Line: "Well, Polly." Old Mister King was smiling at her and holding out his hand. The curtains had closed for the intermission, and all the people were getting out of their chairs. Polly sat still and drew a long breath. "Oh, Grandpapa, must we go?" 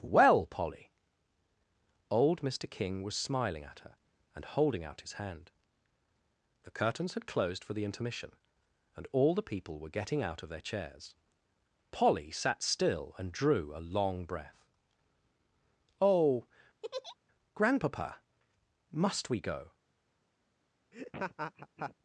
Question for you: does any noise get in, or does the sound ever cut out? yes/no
yes